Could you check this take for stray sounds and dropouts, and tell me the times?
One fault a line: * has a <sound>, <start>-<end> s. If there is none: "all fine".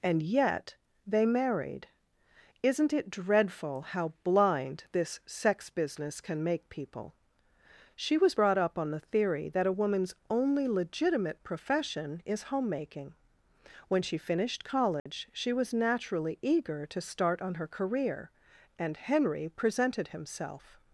* has a dropout, 15.0-15.1 s